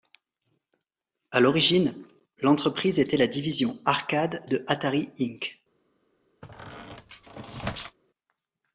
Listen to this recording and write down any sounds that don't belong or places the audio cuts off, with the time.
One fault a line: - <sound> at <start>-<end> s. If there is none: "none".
- squeak at 6.4-8.0 s